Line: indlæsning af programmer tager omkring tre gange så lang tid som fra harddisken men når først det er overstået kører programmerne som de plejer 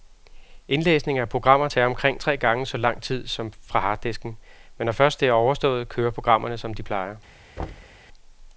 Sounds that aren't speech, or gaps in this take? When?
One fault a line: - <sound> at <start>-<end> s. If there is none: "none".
- thud at 7.6-8.0 s